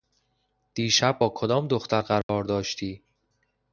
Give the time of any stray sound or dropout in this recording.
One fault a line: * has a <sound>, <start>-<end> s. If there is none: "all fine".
* has a dropout, 2.2-2.3 s